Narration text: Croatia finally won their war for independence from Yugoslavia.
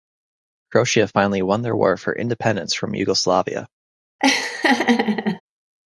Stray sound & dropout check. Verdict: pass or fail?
fail